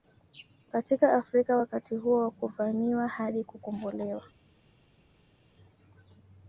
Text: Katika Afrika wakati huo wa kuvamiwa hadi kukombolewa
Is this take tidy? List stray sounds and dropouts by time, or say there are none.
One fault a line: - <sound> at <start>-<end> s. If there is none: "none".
none